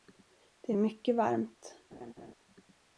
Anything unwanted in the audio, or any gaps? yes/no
yes